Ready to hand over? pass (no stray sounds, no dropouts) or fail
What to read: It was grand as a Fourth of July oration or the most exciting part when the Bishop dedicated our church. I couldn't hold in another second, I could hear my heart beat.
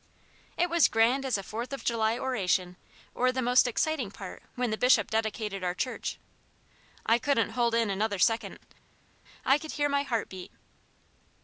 pass